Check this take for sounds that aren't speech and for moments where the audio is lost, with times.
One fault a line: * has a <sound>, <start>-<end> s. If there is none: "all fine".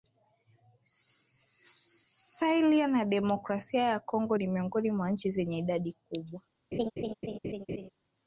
* has a laugh, 6.7-7.9 s